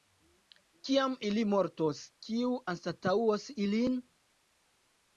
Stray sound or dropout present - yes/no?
no